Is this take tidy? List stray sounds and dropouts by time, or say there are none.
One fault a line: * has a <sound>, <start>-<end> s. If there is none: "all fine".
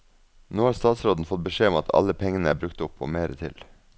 all fine